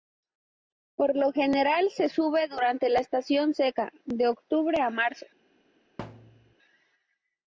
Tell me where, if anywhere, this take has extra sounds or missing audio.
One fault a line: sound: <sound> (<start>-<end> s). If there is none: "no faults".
sound: thud (6.0-6.5 s)